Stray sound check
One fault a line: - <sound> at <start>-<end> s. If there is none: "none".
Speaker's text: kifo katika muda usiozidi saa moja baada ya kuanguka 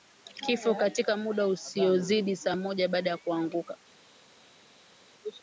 none